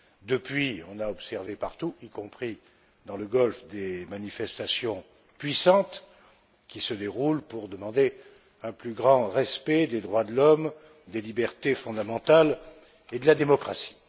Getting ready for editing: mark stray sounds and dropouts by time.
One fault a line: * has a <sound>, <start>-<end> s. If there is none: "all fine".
all fine